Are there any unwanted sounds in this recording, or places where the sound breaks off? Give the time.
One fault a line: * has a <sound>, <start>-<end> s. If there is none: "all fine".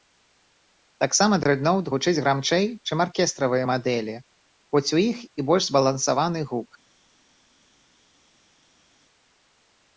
all fine